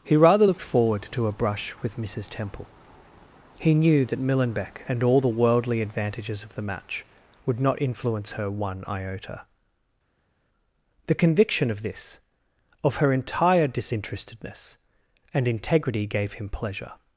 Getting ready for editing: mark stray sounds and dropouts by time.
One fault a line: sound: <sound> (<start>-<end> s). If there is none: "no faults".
no faults